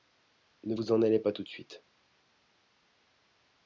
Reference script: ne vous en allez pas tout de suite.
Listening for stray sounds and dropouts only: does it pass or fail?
pass